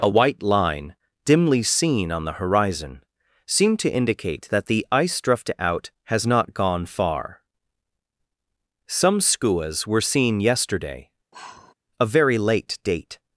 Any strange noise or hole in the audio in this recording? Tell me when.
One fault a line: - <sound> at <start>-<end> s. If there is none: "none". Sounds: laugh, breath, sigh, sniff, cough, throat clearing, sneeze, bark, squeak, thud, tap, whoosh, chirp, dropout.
- sigh at 11.3-11.7 s